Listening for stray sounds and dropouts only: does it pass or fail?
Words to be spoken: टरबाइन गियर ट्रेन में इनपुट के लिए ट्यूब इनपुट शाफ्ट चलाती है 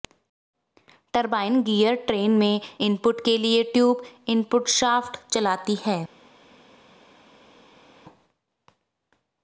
pass